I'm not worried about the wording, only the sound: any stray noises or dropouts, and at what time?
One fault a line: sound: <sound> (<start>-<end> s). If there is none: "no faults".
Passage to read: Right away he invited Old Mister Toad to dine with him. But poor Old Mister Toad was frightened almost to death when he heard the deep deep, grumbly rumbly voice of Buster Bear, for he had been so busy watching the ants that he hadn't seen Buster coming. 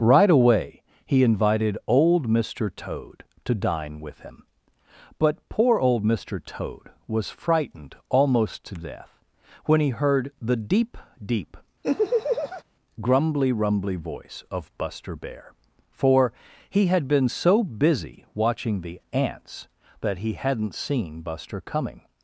sound: laugh (11.8-12.6 s)